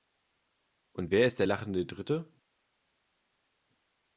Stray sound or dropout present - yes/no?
no